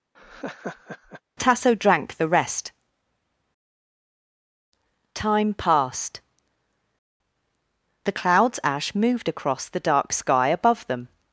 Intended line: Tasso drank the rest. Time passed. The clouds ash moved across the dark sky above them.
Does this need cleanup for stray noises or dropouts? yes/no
yes